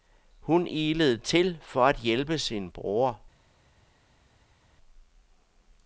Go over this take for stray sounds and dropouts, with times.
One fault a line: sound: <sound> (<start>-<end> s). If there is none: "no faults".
no faults